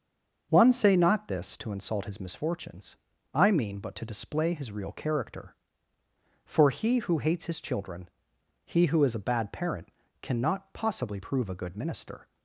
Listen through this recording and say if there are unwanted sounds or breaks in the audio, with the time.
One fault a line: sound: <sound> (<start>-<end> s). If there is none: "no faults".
no faults